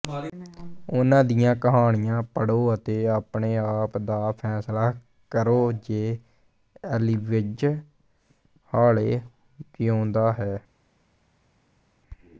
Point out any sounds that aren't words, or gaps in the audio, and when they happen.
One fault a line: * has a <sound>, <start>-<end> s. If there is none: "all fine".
all fine